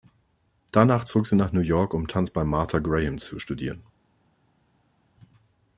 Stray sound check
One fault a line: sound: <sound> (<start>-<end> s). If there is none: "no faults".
no faults